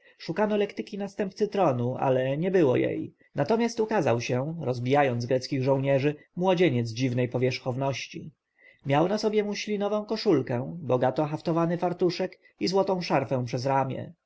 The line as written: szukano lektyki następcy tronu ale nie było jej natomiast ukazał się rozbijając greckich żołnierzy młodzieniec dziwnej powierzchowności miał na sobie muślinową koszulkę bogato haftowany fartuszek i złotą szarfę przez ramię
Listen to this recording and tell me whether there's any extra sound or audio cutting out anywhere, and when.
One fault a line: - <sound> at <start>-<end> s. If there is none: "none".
none